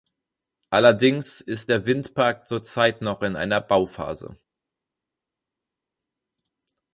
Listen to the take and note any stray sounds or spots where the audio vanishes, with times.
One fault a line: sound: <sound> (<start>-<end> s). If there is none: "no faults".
no faults